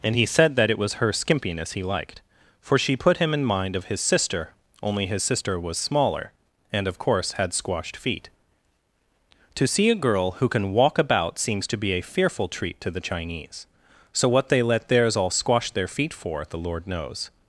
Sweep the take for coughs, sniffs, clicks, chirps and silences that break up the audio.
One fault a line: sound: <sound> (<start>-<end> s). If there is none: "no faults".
no faults